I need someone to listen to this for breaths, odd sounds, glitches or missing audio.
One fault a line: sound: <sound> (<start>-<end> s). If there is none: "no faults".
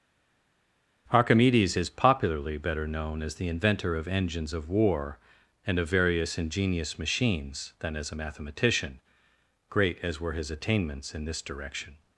no faults